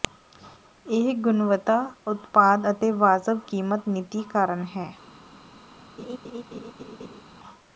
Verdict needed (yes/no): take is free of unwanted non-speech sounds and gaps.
no